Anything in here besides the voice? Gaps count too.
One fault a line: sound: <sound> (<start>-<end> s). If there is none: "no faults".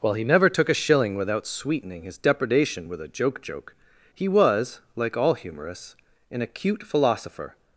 no faults